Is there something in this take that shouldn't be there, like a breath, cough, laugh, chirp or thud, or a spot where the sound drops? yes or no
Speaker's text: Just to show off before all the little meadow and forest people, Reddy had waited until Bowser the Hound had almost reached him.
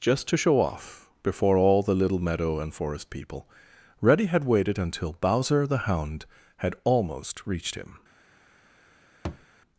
yes